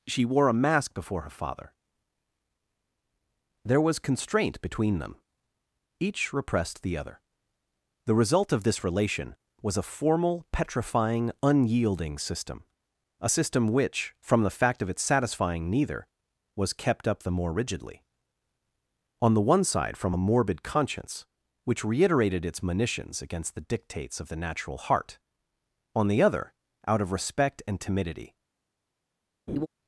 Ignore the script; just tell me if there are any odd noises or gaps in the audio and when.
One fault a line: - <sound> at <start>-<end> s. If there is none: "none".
- laugh at 29.5-29.7 s